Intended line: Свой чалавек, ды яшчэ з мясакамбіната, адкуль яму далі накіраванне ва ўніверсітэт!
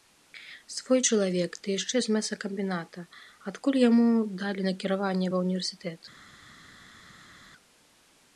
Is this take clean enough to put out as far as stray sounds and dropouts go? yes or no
yes